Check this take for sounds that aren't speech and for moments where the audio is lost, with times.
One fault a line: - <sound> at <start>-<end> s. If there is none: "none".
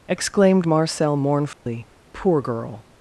- dropout at 1.5-1.7 s